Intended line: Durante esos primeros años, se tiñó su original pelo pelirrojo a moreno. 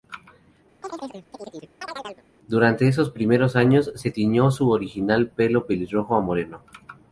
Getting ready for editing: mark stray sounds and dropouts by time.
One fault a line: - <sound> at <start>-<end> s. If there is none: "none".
- chirp at 0.8-2.2 s